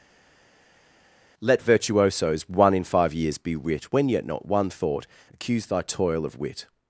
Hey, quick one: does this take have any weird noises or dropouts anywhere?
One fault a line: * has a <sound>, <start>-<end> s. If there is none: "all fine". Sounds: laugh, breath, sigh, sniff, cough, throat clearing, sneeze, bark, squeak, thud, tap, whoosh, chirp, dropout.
all fine